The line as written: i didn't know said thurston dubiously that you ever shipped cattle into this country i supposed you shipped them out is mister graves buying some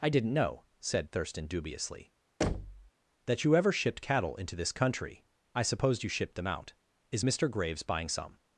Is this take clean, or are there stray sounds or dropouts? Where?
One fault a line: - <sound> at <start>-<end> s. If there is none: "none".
- thud at 2.4-2.9 s